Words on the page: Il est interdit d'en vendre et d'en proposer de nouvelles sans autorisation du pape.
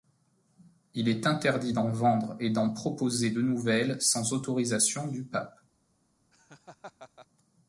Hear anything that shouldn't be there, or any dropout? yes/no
yes